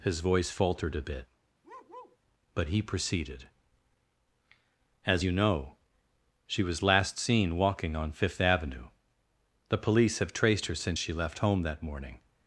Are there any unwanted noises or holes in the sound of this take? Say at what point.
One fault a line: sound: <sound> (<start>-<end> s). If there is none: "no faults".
sound: bark (1.6-2.2 s)